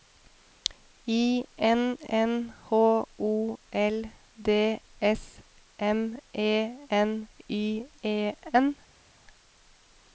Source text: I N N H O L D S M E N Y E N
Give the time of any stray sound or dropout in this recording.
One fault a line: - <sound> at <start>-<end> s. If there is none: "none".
none